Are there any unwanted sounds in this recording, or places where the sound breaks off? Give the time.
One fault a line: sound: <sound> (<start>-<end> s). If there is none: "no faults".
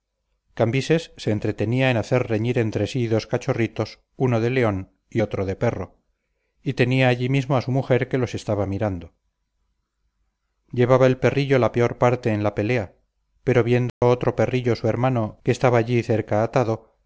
sound: dropout (13.9-14.0 s)